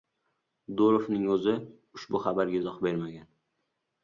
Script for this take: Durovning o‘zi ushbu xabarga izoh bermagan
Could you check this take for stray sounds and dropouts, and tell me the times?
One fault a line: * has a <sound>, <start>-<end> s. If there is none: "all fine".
all fine